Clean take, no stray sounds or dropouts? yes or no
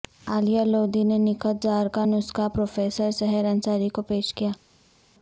yes